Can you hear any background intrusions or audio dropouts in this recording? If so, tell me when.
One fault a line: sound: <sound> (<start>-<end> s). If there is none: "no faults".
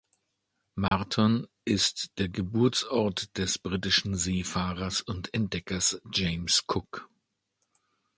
sound: dropout (0.9-0.9 s)